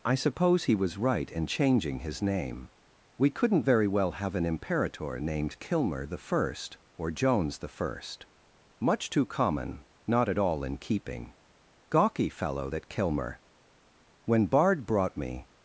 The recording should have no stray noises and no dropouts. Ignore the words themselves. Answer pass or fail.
pass